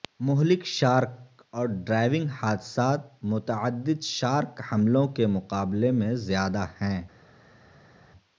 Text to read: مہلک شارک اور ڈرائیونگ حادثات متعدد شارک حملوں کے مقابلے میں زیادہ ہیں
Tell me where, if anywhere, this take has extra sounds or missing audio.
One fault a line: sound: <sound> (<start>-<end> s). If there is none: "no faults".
no faults